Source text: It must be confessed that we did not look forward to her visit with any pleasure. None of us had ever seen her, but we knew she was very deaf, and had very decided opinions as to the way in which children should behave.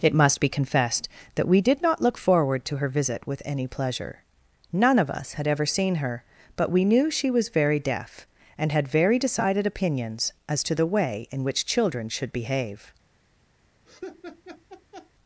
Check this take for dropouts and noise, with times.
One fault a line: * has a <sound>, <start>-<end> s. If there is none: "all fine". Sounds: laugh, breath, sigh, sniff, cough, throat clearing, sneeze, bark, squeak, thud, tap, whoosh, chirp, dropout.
* has a laugh, 13.9-15.1 s